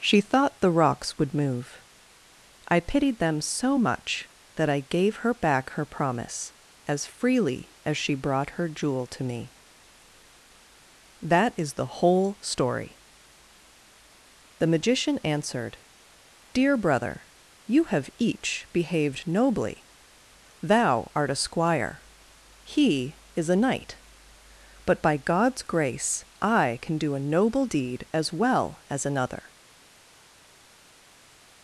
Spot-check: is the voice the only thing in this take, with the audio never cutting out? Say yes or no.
yes